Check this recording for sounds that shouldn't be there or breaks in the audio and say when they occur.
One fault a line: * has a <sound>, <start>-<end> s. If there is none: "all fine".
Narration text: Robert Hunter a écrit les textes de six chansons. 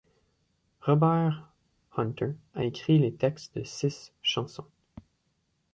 all fine